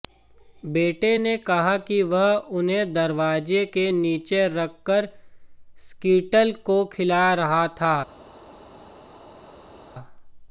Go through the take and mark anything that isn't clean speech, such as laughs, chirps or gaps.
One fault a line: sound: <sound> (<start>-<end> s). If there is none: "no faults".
no faults